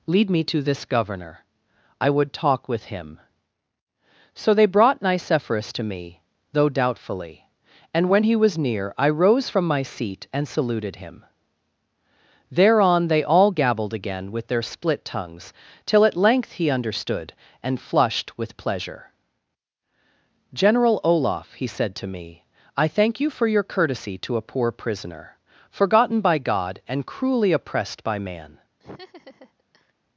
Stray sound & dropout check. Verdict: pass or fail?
fail